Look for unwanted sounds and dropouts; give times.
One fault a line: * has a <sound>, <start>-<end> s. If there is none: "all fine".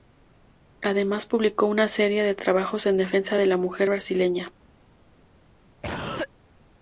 * has a cough, 5.8-6.3 s